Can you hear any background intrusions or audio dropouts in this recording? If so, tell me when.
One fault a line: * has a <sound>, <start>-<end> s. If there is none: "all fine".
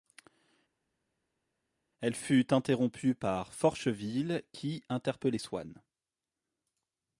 all fine